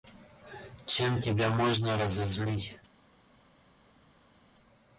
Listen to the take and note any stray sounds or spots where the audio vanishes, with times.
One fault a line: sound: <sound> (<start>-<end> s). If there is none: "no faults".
no faults